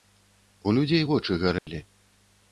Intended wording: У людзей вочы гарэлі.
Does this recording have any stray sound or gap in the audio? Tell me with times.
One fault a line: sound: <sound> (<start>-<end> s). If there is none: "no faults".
sound: dropout (1.6-1.7 s)